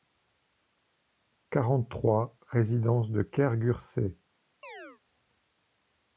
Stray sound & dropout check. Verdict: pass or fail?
fail